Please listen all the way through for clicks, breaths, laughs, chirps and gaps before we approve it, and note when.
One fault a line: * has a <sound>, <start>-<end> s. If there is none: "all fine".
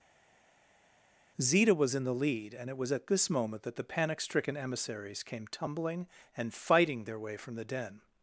all fine